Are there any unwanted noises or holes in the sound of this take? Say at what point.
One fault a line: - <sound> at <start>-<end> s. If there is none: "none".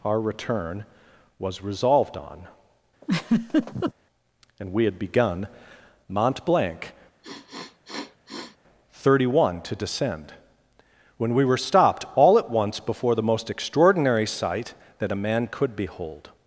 - laugh at 3.0-3.9 s
- sniff at 7.2-8.6 s